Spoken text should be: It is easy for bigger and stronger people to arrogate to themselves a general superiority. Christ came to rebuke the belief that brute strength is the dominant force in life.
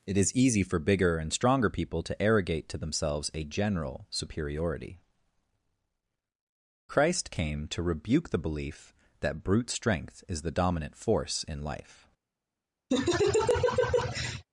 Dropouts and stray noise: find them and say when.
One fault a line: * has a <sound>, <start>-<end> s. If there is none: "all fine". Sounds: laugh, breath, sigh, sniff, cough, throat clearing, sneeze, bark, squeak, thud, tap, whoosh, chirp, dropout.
* has a laugh, 12.9-14.5 s